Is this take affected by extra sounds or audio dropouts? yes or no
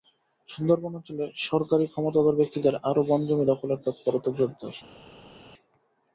no